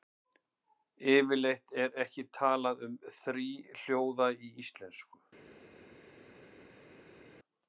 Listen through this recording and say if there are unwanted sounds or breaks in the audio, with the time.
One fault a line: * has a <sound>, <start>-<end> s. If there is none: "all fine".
all fine